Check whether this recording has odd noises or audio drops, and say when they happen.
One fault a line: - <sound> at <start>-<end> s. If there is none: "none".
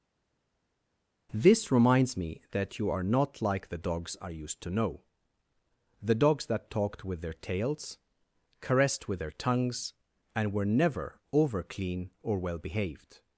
none